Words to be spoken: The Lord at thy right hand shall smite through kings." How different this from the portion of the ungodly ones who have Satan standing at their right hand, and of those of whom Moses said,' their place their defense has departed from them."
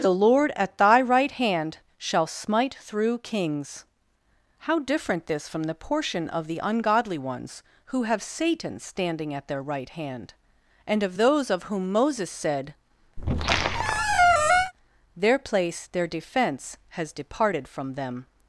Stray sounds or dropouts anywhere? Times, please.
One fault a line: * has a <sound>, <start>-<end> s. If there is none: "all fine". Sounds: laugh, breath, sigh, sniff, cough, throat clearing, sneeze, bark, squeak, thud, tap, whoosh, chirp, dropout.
* has a squeak, 13.2-14.7 s